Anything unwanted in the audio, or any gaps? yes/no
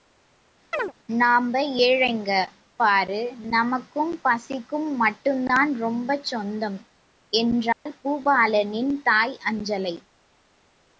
yes